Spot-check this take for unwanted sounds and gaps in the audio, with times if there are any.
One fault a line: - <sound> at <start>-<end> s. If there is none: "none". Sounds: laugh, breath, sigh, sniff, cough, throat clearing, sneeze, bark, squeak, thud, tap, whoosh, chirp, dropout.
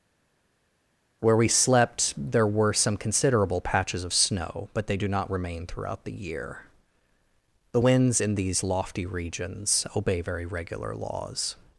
none